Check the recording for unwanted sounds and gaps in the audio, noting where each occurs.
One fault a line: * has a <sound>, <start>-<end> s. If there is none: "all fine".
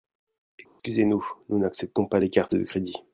* has a dropout, 0.7-0.8 s